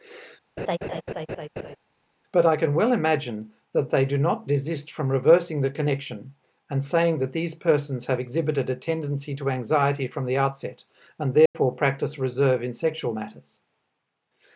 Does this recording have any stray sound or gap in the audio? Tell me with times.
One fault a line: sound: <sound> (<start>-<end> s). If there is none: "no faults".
sound: laugh (0.6-1.8 s)
sound: dropout (11.5-11.5 s)